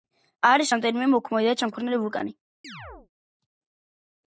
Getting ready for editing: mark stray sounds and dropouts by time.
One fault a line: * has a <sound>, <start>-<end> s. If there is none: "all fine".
* has a chirp, 2.6-3.1 s